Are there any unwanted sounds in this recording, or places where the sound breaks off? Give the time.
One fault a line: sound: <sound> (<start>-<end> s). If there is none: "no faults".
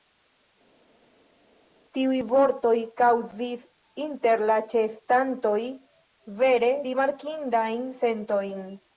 no faults